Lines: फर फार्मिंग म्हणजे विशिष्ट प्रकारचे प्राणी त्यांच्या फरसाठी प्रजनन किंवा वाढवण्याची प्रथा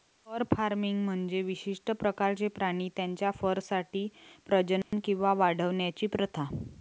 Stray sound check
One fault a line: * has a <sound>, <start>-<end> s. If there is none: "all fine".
* has a dropout, 4.8-4.9 s